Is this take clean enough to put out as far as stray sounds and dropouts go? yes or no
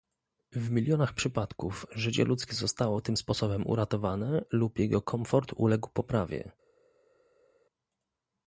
yes